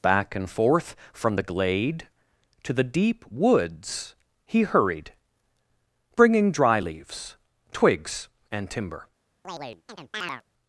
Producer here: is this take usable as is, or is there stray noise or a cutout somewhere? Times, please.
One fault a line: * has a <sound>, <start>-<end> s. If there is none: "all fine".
* has a chirp, 9.4-10.4 s